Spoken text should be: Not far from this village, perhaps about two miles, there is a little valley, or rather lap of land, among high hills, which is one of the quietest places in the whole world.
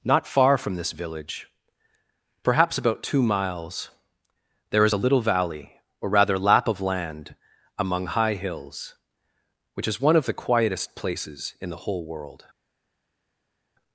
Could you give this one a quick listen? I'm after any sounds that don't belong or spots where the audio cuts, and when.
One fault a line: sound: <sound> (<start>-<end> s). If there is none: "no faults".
no faults